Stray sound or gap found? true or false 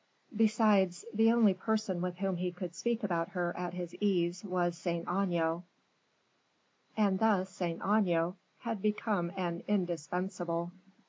false